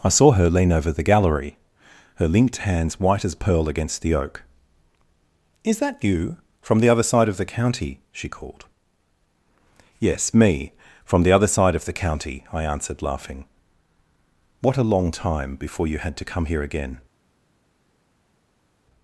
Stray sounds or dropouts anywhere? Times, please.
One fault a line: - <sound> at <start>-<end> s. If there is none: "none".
none